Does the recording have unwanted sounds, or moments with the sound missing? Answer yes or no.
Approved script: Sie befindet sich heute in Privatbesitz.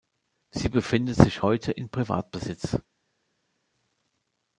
no